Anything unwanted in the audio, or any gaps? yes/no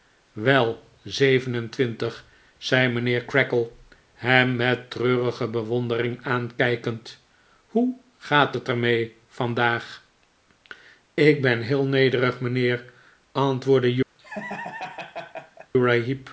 yes